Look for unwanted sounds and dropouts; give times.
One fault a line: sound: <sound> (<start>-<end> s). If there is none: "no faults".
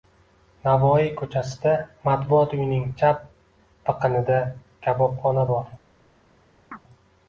sound: chirp (6.7-6.8 s)